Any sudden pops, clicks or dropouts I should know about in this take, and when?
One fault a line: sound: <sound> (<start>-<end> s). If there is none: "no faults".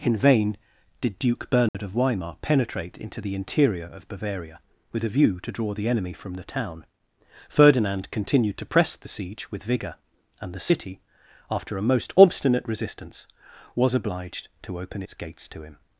sound: dropout (1.7-1.7 s)